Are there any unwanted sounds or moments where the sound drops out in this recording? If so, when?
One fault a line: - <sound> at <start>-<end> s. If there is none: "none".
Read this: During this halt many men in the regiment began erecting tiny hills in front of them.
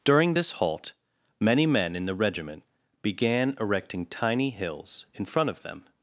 none